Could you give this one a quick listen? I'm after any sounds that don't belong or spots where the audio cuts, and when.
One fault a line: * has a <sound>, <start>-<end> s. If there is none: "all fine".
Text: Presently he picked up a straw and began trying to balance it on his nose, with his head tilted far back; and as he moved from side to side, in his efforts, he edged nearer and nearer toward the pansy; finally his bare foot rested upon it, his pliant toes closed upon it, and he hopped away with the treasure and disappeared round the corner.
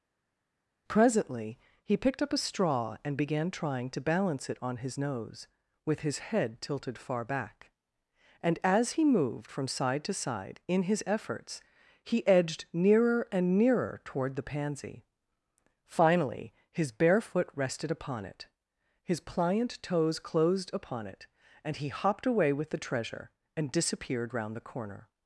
all fine